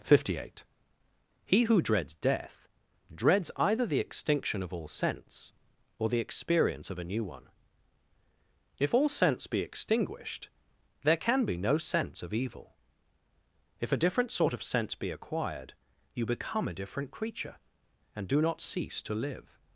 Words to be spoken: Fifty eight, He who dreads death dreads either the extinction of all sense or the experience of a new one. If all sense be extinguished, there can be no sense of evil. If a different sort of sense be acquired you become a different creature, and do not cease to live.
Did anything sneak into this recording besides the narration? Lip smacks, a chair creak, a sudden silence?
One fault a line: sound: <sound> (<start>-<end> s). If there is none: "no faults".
no faults